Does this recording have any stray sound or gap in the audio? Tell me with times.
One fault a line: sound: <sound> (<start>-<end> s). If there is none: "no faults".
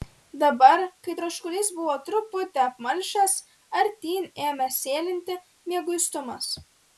no faults